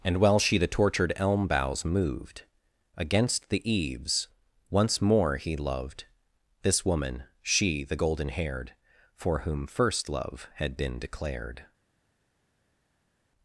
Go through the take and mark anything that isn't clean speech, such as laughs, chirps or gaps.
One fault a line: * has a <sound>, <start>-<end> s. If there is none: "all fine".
all fine